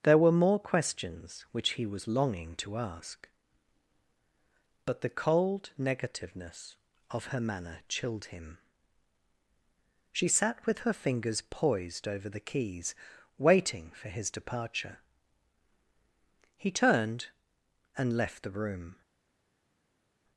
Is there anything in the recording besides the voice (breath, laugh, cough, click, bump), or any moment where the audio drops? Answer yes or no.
no